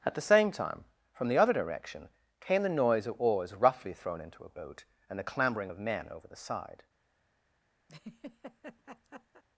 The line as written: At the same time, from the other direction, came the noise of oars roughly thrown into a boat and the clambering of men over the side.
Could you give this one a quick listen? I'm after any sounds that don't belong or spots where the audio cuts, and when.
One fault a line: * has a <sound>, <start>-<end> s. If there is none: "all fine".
* has a laugh, 7.9-9.4 s